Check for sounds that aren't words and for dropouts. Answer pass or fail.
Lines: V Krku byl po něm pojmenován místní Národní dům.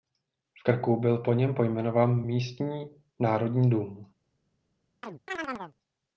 fail